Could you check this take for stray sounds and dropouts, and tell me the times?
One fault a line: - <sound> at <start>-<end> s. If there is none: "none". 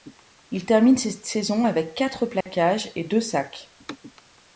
- dropout at 2.4-2.5 s